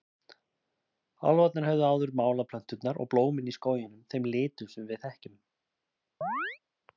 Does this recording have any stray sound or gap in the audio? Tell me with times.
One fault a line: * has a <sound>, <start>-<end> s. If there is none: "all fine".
* has a chirp, 6.2-6.6 s